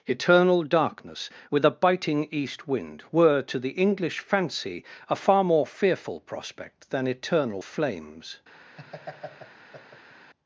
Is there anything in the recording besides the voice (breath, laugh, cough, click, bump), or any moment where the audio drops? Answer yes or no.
yes